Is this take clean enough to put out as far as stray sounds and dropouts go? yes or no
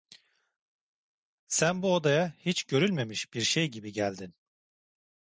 yes